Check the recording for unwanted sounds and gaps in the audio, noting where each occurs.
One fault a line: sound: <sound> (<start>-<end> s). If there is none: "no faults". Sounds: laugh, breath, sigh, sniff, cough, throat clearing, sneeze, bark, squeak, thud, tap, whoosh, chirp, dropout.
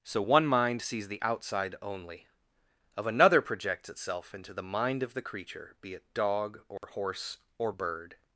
sound: dropout (6.8-6.8 s)